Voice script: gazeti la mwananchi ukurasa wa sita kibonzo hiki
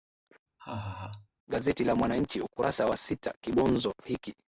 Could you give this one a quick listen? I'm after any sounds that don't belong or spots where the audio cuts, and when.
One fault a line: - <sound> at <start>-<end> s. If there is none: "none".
- laugh at 0.6-1.3 s